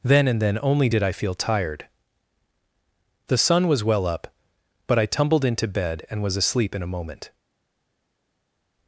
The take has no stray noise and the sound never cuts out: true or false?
true